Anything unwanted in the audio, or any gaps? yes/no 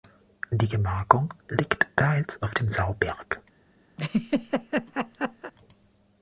yes